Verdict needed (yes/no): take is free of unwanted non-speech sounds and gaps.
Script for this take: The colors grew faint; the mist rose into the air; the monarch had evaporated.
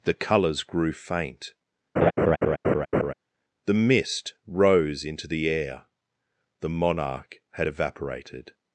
no